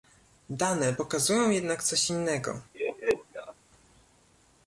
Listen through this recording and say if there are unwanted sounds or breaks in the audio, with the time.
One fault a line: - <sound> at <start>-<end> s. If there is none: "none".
- laugh at 2.7-3.5 s